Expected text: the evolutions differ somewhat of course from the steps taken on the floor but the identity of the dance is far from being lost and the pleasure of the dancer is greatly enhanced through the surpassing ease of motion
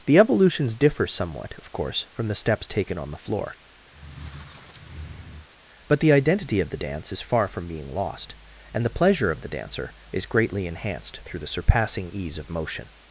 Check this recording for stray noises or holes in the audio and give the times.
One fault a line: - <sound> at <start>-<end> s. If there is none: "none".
- squeak at 3.9-5.5 s